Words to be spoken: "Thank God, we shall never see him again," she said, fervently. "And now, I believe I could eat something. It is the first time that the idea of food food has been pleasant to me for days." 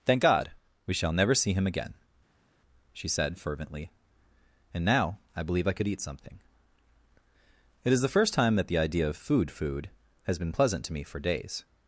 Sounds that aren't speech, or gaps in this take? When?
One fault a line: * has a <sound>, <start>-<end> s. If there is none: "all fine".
all fine